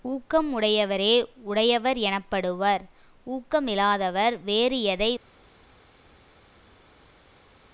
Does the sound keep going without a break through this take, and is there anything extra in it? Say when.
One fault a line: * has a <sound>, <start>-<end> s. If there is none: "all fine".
all fine